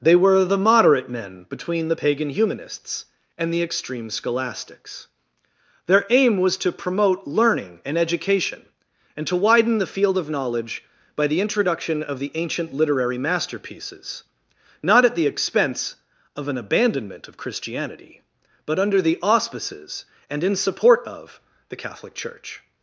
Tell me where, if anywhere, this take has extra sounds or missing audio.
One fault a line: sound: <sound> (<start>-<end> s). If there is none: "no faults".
no faults